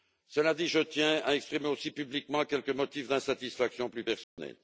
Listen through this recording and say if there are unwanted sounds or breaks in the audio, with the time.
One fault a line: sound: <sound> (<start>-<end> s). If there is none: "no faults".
sound: dropout (4.2-4.4 s)